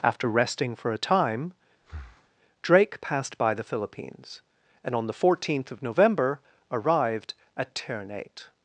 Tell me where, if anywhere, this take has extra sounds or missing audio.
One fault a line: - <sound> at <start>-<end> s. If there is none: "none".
- breath at 1.8-2.3 s